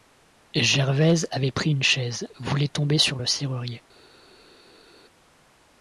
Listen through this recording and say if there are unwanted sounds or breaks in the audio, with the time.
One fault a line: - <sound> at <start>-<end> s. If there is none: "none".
none